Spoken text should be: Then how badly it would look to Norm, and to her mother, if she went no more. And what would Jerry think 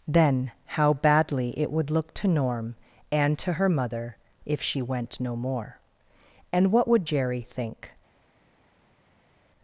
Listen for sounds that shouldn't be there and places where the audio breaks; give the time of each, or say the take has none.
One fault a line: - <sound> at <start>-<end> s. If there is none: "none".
none